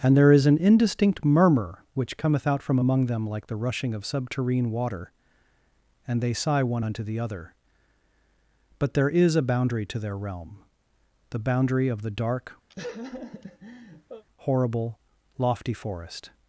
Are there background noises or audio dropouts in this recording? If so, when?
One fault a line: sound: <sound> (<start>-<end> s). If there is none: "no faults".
sound: laugh (12.7-14.2 s)